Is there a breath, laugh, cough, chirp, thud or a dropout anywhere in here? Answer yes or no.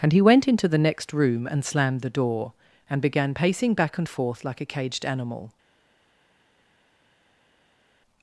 no